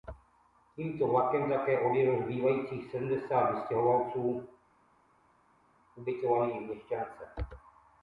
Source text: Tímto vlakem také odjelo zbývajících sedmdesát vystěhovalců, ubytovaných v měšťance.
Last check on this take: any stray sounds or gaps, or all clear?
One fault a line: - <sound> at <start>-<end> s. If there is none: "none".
none